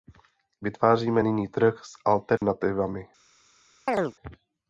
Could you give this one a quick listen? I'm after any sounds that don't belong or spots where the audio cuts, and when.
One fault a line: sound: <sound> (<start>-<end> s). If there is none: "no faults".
sound: dropout (2.4-2.4 s)
sound: chirp (3.9-4.1 s)